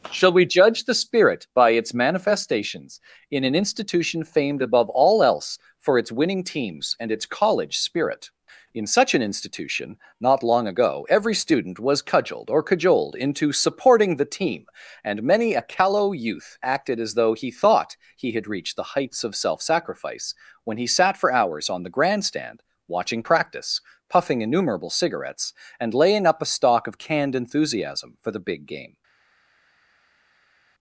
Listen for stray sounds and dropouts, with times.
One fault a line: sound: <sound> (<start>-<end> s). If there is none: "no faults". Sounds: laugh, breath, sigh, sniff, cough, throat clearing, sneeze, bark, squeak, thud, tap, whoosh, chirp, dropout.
no faults